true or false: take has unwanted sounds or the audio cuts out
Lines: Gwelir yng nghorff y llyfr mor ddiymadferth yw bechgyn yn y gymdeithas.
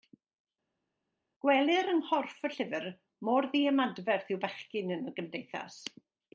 false